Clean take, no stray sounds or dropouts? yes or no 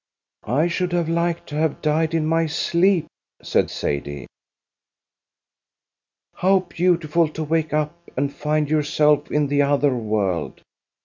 yes